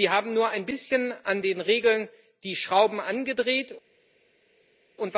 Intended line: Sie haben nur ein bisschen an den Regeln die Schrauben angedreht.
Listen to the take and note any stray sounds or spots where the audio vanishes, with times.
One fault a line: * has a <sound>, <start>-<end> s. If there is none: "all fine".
all fine